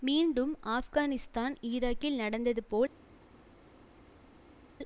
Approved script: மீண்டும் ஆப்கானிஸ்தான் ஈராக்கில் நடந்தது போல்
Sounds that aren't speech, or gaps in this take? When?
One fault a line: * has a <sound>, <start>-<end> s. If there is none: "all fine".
all fine